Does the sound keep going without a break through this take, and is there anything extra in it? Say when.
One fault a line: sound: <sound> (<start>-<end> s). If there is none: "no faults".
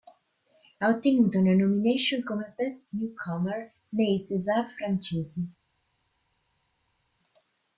no faults